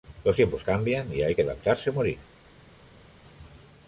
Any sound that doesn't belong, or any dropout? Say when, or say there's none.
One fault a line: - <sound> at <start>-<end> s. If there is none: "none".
none